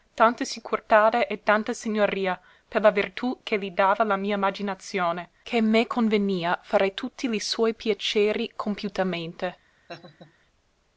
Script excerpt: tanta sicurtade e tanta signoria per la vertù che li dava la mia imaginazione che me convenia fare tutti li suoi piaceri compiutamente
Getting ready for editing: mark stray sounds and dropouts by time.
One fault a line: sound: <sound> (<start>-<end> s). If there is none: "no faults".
sound: laugh (9.9-10.3 s)